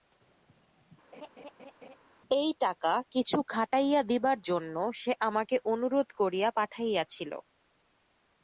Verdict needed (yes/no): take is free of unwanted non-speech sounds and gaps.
no